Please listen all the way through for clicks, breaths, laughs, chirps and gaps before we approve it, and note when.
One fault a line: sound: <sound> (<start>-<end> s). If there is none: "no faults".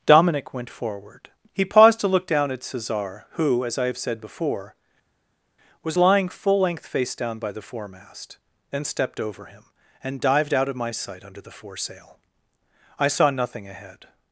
no faults